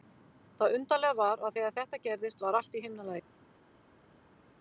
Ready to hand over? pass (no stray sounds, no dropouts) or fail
pass